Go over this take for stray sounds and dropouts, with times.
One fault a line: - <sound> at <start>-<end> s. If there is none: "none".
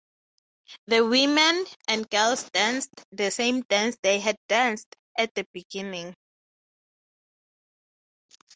none